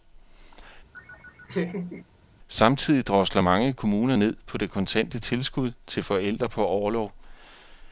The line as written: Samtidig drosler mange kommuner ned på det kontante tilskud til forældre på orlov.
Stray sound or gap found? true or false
true